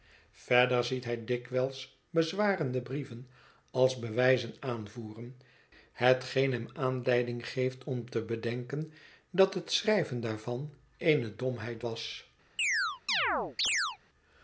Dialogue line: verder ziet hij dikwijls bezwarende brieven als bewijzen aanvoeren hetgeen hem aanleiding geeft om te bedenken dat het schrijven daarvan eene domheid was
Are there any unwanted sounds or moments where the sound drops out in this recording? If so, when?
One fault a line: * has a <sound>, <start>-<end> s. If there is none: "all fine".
* has a chirp, 12.6-14.0 s